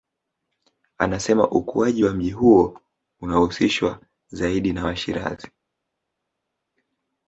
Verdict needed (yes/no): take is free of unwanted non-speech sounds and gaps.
yes